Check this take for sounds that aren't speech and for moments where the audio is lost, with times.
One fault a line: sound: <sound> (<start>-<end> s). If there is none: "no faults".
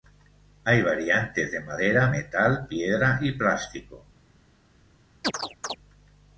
sound: chirp (5.2-5.8 s)